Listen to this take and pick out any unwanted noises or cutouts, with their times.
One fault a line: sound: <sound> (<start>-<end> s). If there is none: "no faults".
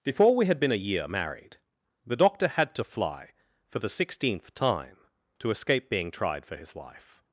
no faults